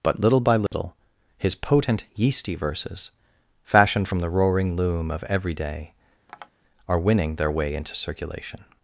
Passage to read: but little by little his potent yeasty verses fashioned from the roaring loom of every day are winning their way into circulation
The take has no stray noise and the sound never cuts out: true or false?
false